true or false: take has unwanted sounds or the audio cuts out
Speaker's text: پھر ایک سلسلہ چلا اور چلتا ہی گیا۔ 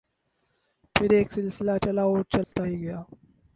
true